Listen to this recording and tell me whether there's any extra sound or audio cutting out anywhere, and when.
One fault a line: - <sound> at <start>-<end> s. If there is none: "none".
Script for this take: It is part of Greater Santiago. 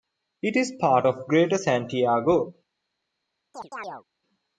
- chirp at 3.5-4.0 s